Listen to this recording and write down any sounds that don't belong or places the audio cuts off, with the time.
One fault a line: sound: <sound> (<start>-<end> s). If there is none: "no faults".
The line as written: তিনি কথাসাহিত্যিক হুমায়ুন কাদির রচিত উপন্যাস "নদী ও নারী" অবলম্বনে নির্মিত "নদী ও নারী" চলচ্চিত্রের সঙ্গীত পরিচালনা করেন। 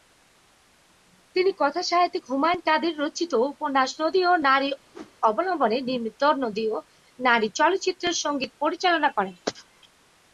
sound: whoosh (4.9-5.2 s)